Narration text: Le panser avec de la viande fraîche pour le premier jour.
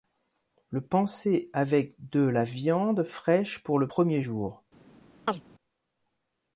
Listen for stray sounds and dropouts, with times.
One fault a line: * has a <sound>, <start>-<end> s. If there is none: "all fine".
* has a chirp, 5.3-5.4 s